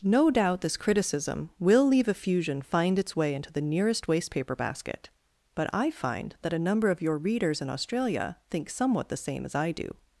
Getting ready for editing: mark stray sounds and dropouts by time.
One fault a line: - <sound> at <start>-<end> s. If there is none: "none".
none